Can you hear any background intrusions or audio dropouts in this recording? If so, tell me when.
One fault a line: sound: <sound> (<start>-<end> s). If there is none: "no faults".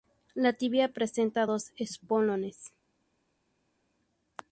no faults